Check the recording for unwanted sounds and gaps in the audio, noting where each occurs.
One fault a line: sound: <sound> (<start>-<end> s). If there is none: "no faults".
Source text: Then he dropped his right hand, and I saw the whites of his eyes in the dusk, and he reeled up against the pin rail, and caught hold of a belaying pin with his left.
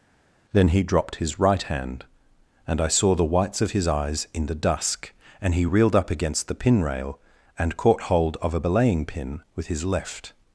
no faults